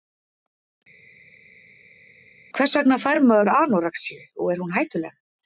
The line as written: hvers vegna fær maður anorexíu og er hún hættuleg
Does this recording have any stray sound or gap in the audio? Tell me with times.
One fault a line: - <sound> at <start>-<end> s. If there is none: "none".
none